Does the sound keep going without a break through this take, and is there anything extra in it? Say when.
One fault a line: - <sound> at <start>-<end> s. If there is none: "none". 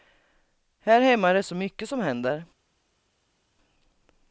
none